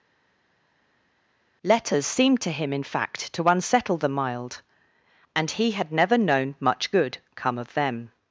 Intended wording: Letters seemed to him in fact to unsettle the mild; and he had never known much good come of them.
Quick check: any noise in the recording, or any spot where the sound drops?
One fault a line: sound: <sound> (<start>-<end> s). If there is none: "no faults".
no faults